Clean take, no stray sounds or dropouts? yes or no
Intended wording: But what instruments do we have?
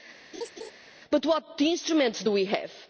no